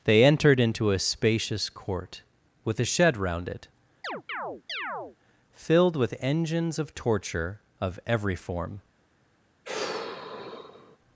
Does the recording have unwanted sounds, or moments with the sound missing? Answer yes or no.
yes